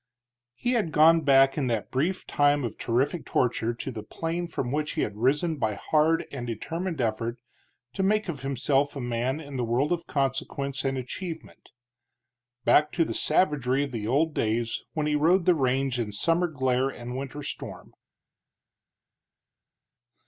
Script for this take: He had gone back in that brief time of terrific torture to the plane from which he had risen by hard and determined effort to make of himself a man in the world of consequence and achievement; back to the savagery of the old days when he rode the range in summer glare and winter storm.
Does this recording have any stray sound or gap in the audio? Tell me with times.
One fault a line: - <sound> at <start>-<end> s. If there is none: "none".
none